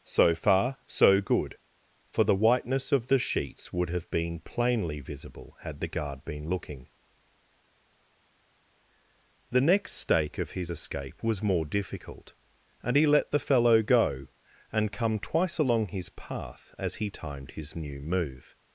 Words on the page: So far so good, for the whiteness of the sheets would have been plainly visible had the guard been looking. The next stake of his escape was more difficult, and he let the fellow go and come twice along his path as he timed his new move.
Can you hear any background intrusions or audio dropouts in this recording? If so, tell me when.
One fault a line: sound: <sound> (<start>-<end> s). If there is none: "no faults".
no faults